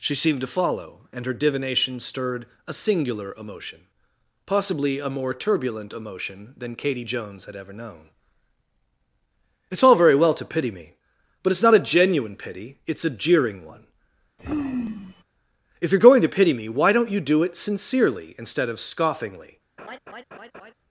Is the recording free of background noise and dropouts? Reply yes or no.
no